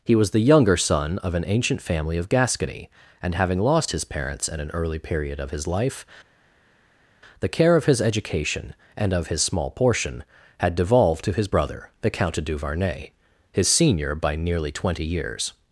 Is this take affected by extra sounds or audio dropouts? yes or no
no